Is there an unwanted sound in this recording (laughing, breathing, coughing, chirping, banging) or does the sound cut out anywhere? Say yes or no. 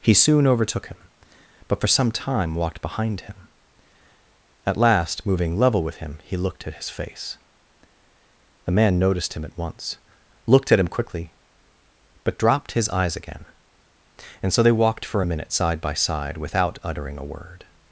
no